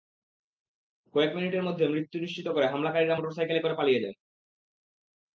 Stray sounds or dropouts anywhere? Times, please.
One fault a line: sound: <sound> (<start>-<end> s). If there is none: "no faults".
no faults